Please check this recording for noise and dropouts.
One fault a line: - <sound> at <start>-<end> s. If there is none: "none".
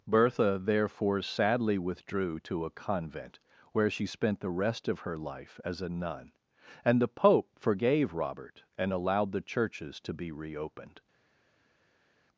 none